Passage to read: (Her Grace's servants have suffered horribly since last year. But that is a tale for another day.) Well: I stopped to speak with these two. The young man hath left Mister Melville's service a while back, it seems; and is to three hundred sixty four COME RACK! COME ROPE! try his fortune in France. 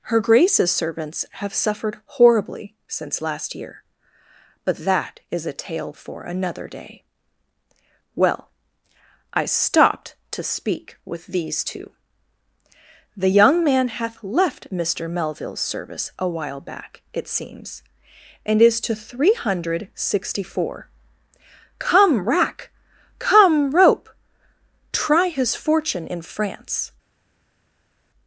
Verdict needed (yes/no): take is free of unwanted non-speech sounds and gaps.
yes